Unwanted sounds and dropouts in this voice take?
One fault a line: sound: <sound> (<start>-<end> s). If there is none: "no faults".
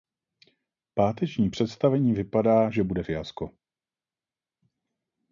no faults